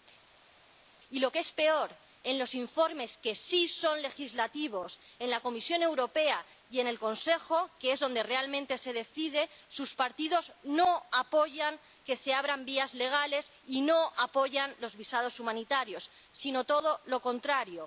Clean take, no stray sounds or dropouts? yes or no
yes